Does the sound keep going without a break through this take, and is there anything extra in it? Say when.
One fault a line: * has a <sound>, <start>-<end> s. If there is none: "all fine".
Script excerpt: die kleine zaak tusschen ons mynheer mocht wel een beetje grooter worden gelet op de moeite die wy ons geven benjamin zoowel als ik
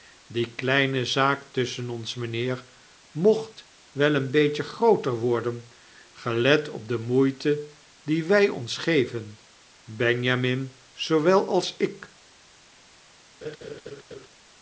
* has a laugh, 13.4-14.3 s